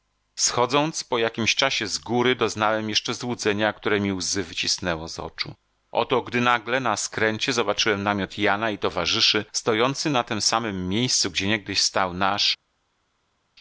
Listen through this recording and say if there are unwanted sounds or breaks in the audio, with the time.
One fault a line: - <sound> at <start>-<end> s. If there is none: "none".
none